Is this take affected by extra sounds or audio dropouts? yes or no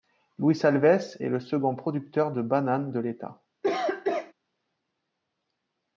yes